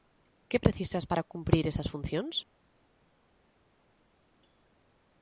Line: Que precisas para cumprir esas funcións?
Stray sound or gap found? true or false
false